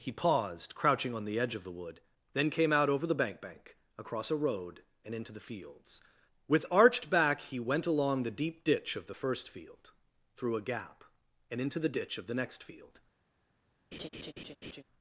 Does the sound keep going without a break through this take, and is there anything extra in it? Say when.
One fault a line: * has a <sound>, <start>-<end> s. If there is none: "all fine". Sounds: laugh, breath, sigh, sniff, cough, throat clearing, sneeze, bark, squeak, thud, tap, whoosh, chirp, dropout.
* has a laugh, 13.9-14.8 s